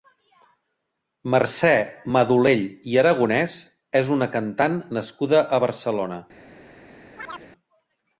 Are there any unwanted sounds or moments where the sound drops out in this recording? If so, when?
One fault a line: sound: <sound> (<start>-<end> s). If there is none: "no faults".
sound: chirp (7.2-7.5 s)